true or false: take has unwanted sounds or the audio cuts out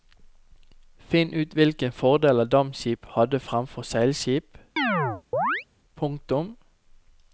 true